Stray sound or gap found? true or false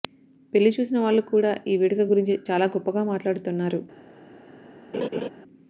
true